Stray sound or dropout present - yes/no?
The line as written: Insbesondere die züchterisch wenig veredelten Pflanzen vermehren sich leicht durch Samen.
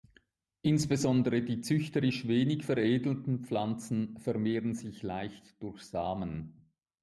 no